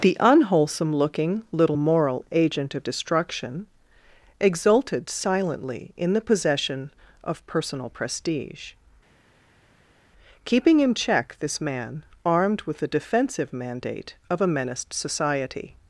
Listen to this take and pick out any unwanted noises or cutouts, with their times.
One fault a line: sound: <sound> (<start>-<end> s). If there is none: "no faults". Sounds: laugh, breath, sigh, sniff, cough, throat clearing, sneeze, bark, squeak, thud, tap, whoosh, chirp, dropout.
no faults